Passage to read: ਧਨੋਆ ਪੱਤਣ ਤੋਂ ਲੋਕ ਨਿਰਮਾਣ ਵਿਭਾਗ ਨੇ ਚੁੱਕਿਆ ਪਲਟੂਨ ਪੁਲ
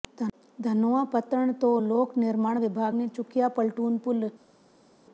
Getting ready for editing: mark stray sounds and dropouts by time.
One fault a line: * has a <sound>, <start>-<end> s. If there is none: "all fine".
all fine